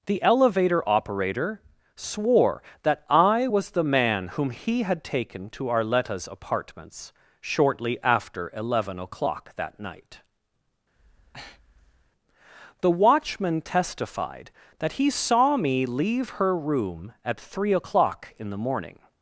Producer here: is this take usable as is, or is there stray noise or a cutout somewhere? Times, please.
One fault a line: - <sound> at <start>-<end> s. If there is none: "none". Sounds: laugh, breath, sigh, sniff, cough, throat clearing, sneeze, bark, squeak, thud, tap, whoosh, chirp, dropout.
- breath at 10.9-12.1 s